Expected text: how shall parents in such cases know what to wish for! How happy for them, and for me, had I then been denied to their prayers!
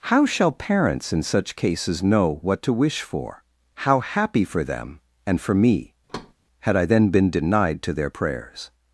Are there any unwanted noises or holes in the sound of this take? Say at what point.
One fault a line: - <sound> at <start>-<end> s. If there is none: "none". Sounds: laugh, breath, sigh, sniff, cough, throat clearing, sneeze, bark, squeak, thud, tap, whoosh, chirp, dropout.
- thud at 6.1-6.3 s